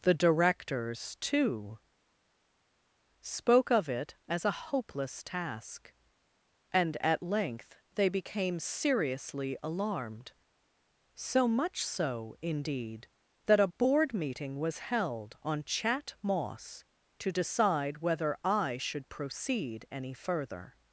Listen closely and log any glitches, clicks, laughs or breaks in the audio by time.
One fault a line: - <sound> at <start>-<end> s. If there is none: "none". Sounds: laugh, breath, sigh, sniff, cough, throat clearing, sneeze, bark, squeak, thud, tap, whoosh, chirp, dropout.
none